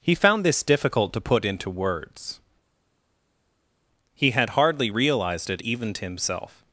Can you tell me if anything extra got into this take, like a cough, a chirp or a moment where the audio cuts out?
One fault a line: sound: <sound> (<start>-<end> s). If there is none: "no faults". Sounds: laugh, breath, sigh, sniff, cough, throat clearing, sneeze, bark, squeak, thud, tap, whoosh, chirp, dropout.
no faults